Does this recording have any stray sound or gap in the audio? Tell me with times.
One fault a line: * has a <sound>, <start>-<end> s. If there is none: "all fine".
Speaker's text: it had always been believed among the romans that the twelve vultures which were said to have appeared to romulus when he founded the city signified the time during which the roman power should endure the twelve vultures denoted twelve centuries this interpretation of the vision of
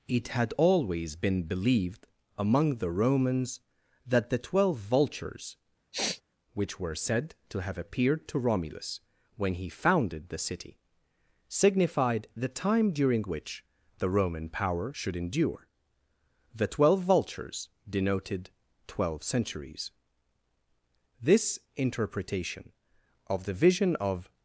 * has a sniff, 5.9-6.2 s